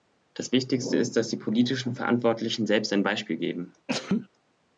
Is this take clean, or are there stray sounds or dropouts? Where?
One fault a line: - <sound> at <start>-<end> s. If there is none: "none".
- sneeze at 3.9-4.3 s